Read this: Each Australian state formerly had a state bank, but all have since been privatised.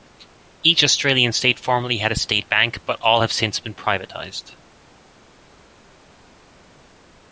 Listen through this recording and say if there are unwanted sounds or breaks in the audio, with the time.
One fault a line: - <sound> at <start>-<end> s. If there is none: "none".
none